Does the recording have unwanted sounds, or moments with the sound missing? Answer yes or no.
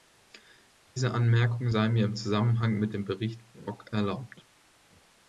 no